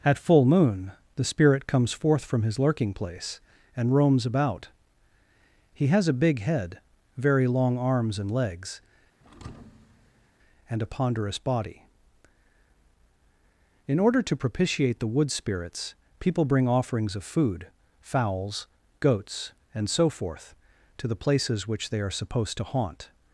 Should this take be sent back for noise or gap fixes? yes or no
yes